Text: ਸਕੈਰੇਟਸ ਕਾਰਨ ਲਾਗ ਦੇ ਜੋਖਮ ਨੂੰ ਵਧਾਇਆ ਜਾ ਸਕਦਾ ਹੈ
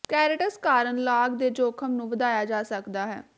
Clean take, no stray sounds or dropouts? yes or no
yes